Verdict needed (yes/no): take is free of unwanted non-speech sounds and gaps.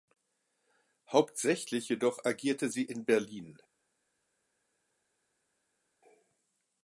yes